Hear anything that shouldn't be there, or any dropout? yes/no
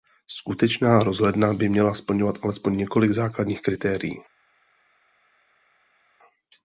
no